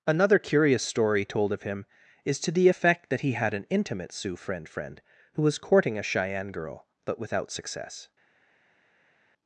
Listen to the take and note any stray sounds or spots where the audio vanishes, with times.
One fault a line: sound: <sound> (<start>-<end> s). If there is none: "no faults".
no faults